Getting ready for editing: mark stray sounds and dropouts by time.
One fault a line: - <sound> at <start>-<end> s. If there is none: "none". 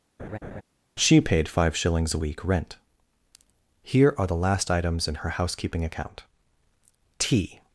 - laugh at 0.2-0.6 s